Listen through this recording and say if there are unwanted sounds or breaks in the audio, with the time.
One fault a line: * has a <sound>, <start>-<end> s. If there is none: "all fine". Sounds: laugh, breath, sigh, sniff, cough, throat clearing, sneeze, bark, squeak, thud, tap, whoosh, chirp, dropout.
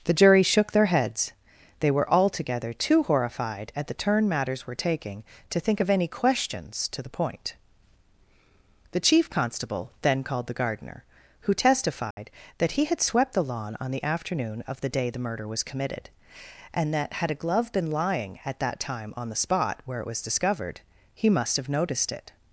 * has a dropout, 12.1-12.2 s